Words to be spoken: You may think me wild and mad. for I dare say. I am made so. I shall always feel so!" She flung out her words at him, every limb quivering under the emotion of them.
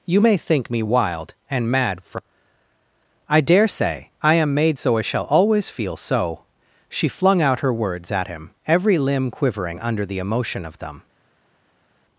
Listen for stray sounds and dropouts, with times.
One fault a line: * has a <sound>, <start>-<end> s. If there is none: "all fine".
all fine